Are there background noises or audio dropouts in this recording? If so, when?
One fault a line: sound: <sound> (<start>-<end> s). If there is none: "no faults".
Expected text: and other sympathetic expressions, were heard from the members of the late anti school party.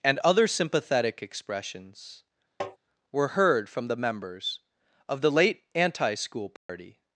sound: tap (2.6-2.8 s)
sound: dropout (6.6-6.7 s)